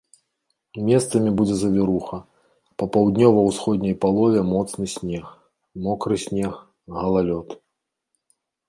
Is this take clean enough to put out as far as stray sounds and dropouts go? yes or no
yes